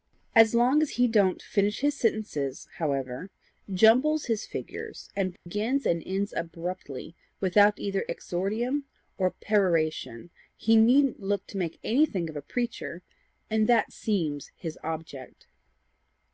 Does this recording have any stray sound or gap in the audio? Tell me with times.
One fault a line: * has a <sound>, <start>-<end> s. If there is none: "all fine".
* has a dropout, 5.4-5.5 s